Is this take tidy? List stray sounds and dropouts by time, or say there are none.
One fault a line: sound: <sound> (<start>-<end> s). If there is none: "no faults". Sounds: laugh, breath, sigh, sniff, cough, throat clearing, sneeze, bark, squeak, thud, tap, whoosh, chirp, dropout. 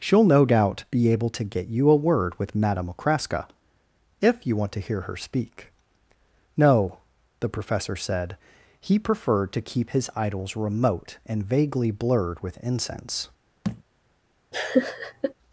sound: thud (13.6-13.8 s)
sound: laugh (14.5-15.3 s)